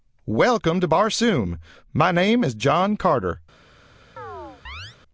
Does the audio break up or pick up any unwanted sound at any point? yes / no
yes